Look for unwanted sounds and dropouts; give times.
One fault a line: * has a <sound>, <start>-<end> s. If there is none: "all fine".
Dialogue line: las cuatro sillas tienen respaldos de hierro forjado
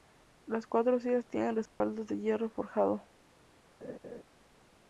* has a dropout, 1.7-1.8 s
* has a laugh, 3.8-4.2 s